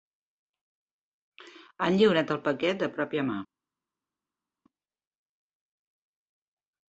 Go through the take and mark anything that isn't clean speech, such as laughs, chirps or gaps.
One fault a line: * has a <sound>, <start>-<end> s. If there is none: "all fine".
all fine